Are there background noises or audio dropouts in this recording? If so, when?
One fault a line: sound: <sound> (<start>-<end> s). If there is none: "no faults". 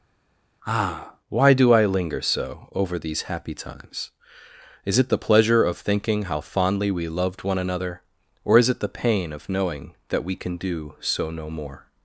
no faults